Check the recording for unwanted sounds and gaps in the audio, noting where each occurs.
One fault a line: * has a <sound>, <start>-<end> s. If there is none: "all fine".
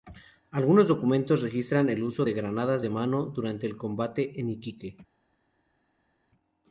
all fine